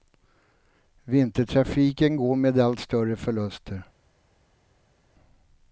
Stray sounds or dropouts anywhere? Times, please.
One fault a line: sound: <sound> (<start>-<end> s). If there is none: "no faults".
no faults